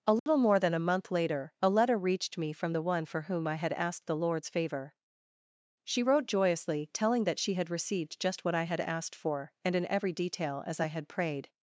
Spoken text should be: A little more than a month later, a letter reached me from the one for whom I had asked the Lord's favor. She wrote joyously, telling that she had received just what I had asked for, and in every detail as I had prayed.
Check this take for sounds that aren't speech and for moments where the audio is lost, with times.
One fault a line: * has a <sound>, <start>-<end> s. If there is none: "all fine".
* has a dropout, 0.2-0.3 s